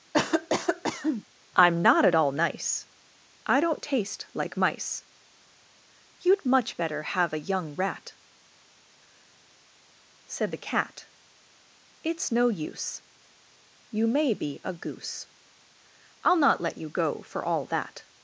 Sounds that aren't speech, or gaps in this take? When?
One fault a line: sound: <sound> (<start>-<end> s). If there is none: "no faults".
sound: cough (0.1-1.2 s)